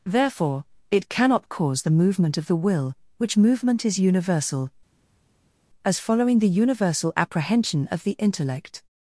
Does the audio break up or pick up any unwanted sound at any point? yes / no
no